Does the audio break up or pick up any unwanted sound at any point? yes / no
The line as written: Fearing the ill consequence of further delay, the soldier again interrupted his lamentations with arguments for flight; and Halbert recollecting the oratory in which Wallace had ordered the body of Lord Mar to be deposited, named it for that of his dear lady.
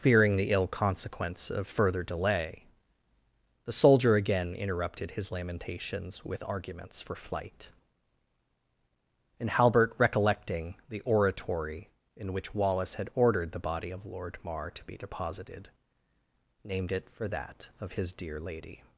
no